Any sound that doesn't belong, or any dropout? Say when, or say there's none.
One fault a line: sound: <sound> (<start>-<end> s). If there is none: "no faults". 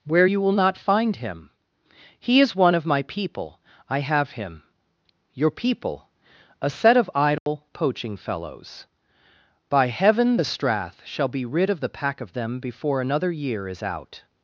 sound: dropout (7.4-7.5 s)